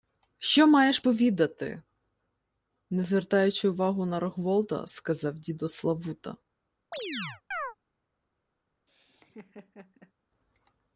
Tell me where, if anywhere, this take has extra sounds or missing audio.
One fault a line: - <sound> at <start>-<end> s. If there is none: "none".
- chirp at 6.9-7.8 s
- laugh at 8.9-10.1 s